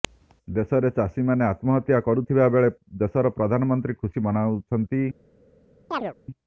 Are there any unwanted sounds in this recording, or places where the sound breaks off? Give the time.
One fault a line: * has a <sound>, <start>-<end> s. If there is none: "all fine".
* has a chirp, 5.9-6.1 s